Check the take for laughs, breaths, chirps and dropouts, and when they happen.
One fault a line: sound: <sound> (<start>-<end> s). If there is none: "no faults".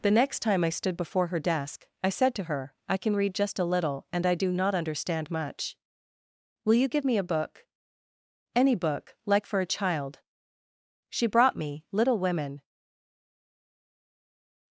no faults